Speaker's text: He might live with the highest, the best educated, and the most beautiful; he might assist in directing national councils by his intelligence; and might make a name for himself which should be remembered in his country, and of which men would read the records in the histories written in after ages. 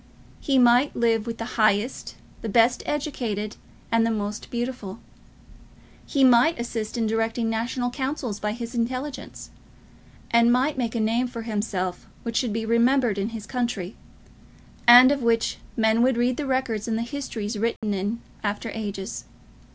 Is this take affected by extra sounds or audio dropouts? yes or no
yes